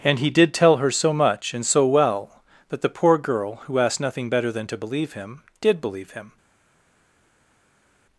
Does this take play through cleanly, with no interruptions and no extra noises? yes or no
yes